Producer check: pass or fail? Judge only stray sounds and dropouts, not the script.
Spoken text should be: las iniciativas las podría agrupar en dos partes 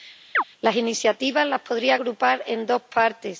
fail